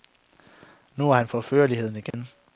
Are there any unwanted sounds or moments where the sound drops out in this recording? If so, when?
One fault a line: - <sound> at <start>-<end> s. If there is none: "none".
- dropout at 2.1-2.1 s